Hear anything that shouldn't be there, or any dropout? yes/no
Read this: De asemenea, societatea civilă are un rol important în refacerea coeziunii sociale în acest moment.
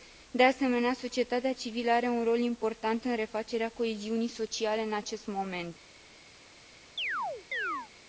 yes